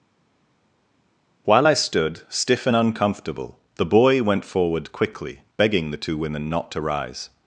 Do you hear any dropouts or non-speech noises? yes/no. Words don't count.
no